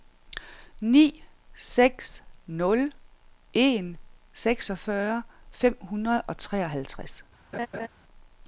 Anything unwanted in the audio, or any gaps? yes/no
yes